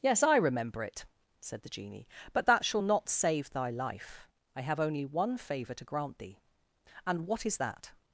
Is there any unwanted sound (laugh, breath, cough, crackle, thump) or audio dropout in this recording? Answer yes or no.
no